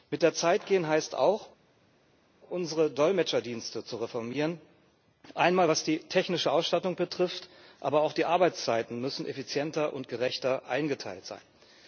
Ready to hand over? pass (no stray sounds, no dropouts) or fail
pass